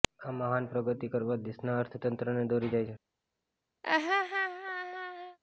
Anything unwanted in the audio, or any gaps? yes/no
yes